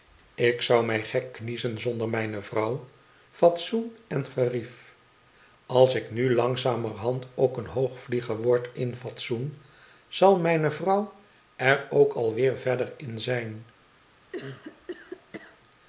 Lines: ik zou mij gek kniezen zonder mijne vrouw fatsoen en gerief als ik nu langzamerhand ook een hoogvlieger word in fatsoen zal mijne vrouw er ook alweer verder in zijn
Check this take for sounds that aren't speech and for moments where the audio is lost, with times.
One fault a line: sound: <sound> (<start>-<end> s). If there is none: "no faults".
sound: cough (14.3-15.6 s)